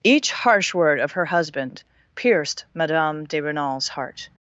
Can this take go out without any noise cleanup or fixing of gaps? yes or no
yes